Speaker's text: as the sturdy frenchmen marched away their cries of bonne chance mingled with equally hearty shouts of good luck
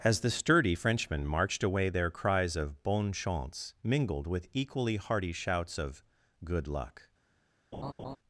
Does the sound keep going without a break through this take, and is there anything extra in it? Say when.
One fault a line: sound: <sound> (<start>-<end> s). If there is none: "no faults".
sound: laugh (7.7-8.2 s)